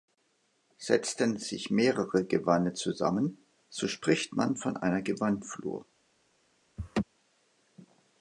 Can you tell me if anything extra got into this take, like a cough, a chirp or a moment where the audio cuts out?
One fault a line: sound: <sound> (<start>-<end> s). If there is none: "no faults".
sound: laugh (6.8-7.0 s)